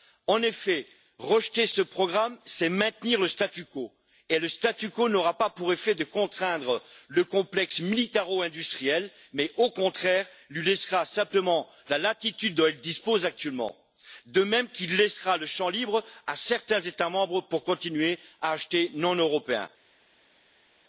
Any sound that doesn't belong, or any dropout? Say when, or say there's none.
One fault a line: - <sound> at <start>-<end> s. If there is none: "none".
none